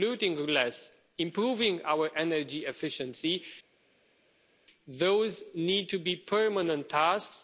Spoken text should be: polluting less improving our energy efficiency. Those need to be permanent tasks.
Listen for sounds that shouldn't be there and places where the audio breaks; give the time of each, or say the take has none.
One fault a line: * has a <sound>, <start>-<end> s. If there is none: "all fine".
all fine